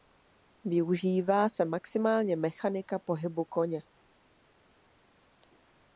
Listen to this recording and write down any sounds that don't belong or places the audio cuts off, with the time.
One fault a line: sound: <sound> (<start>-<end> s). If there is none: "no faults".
no faults